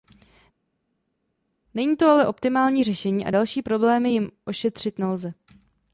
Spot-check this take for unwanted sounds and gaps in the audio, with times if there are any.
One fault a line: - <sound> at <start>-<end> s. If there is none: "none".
none